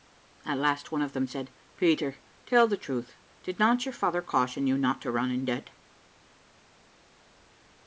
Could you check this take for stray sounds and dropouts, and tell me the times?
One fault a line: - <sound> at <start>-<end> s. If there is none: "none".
none